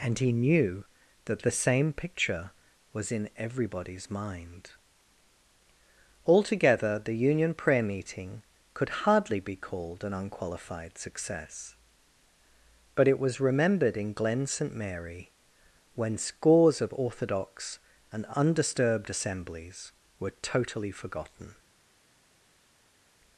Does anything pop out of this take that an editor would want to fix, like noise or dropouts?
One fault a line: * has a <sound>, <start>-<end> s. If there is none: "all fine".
all fine